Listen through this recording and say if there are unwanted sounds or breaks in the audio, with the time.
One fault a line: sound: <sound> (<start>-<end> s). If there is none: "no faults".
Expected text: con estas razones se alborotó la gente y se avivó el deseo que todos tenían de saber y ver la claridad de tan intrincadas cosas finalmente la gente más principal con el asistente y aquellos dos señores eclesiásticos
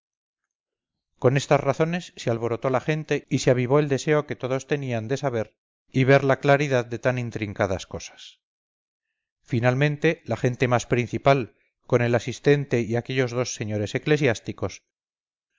no faults